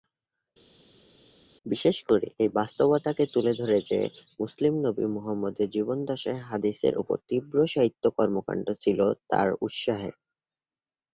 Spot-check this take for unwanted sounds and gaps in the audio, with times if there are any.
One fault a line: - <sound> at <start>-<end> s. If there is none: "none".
none